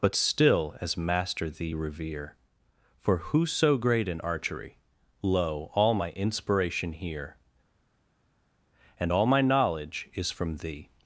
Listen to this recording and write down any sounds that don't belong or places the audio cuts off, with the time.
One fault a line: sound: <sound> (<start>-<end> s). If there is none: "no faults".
no faults